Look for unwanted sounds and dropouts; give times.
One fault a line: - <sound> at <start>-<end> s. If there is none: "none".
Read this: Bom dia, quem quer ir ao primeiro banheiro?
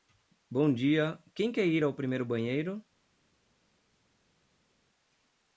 none